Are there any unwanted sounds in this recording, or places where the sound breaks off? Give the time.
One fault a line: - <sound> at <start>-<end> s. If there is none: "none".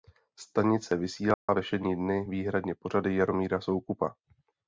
- dropout at 1.3-1.5 s